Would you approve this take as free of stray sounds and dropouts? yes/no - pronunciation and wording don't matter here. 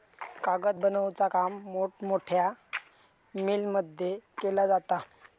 yes